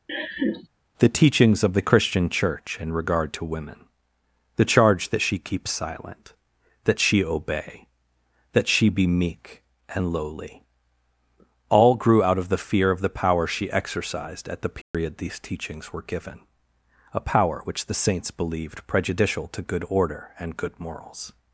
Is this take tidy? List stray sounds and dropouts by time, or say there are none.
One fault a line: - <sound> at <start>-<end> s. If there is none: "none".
- laugh at 0.1-0.7 s
- dropout at 14.8-14.9 s